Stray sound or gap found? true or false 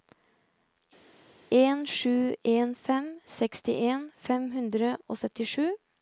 false